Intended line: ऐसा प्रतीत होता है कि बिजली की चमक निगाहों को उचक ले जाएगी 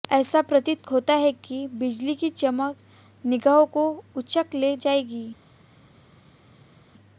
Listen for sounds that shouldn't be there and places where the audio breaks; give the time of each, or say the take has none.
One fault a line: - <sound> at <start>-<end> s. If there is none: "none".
none